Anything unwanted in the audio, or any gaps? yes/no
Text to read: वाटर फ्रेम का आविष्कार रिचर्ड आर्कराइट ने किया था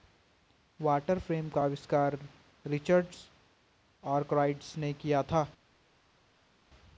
no